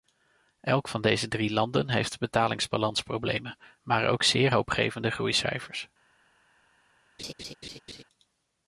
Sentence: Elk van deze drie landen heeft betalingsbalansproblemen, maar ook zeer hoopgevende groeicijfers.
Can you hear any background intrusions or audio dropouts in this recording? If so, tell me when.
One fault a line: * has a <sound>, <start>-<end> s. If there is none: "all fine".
* has a laugh, 7.2-8.0 s